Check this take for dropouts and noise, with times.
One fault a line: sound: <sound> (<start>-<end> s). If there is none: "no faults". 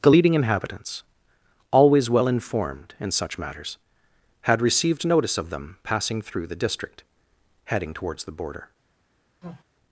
sound: sneeze (9.4-9.6 s)